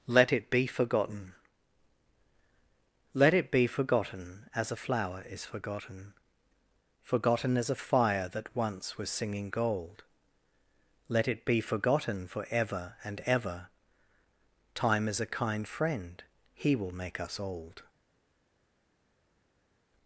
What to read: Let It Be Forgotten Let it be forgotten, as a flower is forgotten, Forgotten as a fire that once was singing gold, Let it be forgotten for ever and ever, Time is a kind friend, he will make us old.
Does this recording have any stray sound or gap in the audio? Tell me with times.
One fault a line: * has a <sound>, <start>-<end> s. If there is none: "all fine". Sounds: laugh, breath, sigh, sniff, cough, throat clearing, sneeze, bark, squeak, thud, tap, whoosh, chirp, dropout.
all fine